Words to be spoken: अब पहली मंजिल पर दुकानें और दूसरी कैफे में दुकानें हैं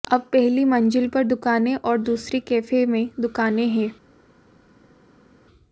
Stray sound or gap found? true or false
false